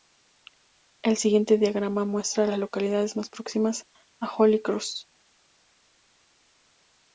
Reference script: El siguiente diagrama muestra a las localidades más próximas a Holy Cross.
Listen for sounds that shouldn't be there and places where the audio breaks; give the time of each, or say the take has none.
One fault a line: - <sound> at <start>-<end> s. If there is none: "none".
none